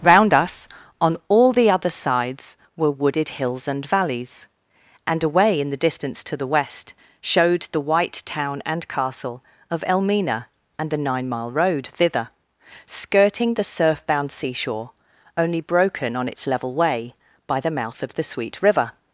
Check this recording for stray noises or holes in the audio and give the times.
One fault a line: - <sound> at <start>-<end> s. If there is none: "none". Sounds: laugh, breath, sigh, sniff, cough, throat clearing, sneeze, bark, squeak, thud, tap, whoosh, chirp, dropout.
none